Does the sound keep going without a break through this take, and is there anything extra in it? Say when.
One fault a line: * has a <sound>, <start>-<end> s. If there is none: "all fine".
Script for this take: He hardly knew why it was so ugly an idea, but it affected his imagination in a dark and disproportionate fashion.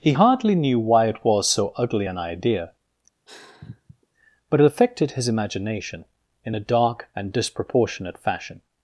* has a sigh, 3.3-4.1 s